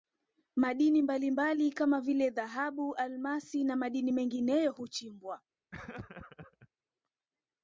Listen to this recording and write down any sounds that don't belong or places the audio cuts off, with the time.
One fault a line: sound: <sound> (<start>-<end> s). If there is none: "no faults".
sound: laugh (5.7-6.7 s)